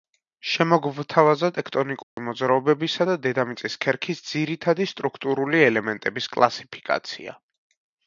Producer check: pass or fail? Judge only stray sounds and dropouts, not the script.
fail